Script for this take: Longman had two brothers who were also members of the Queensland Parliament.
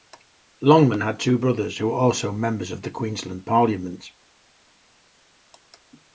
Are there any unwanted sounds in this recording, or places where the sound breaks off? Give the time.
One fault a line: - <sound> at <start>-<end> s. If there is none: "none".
none